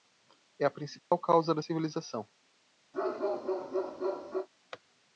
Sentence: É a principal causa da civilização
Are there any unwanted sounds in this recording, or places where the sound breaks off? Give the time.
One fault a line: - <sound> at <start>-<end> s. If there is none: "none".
- dropout at 1.0-1.1 s
- bark at 2.9-4.5 s